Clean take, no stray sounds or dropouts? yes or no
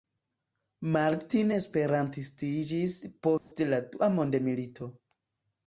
no